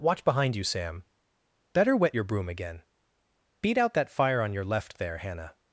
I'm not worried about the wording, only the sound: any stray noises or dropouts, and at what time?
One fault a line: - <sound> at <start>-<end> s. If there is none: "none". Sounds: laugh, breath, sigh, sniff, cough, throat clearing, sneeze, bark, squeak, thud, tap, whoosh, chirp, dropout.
none